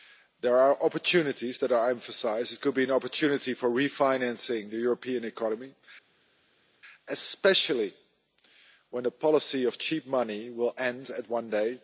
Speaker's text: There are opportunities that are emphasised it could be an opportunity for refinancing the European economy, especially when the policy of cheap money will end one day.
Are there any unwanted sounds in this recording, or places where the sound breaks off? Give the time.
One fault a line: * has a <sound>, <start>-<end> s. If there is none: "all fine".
all fine